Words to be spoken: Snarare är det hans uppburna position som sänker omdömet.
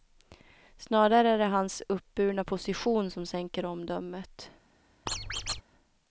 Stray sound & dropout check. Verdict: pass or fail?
fail